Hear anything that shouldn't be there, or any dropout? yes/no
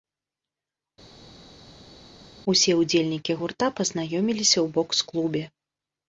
no